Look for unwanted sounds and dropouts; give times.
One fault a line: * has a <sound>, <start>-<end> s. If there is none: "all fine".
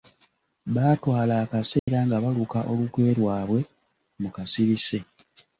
* has a dropout, 1.8-1.9 s